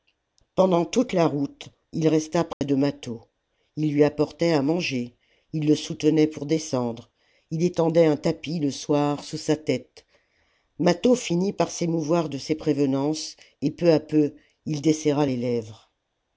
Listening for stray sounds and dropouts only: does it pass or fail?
fail